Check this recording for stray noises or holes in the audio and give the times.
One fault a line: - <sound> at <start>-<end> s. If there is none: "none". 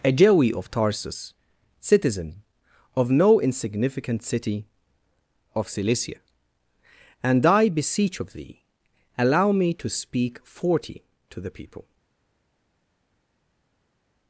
none